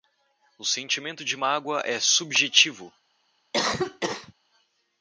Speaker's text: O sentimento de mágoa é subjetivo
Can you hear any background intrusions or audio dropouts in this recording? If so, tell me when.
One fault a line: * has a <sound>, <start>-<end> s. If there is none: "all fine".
* has a cough, 3.5-4.3 s